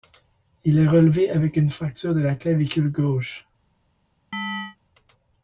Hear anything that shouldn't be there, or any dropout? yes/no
yes